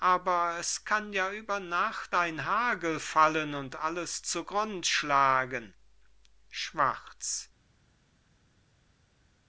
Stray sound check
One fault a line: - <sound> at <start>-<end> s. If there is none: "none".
none